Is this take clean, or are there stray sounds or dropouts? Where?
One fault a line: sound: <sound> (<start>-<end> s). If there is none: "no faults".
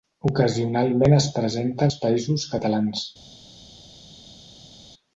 no faults